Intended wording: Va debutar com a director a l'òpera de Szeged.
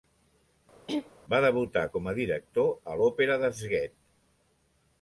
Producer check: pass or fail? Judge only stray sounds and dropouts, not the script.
fail